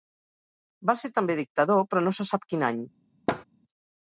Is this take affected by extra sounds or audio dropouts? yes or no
yes